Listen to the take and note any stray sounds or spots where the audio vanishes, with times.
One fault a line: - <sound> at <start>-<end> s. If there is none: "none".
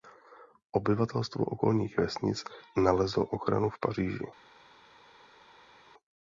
none